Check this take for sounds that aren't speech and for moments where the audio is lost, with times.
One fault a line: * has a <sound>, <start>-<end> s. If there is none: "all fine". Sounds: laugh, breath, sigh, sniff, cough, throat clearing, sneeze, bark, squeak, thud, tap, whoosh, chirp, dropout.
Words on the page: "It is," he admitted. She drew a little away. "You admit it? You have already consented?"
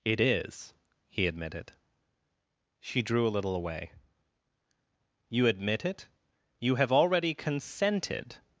all fine